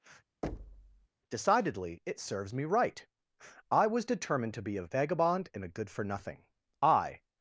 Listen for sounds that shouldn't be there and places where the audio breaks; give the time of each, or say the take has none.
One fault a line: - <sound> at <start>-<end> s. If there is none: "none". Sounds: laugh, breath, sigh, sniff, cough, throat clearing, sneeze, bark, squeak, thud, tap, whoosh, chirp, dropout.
- thud at 0.4-1.1 s